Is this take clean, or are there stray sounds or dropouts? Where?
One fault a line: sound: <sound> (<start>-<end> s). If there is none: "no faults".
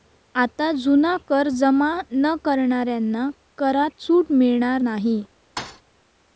sound: thud (5.6-5.8 s)